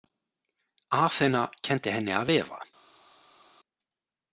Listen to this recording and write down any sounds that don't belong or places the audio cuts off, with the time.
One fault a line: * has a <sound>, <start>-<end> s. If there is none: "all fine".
all fine